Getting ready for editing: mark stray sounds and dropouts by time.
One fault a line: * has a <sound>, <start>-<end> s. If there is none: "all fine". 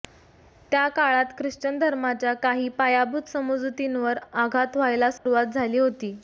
* has a dropout, 5.2-5.3 s